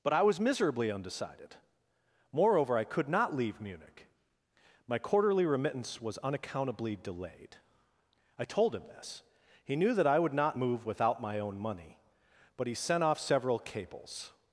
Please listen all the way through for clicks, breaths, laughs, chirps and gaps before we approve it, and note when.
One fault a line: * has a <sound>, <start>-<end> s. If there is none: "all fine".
all fine